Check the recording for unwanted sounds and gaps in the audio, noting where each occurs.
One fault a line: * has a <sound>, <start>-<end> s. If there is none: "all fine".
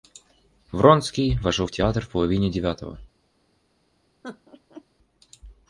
* has a laugh, 4.2-4.8 s